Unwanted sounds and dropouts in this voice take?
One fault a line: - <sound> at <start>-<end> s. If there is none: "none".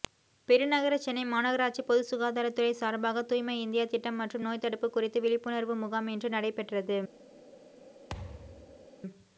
- thud at 8.1-8.9 s